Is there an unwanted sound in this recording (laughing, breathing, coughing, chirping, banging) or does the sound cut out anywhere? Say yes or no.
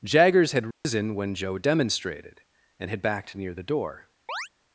yes